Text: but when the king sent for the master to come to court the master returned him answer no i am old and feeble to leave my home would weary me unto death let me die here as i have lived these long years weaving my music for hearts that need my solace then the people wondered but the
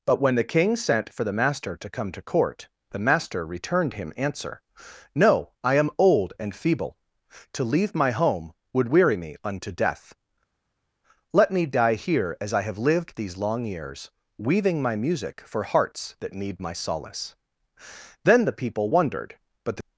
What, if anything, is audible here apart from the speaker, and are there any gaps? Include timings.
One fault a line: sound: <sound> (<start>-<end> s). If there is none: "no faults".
no faults